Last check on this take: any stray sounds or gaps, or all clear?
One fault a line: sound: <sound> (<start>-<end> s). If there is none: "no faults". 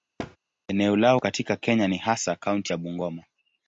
sound: thud (0.2-0.4 s)